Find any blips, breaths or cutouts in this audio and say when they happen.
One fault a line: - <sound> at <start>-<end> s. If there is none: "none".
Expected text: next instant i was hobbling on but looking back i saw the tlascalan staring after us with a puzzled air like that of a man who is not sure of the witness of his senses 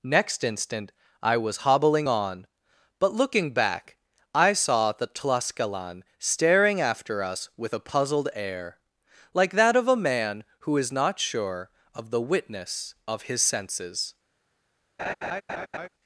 - laugh at 15.0-15.9 s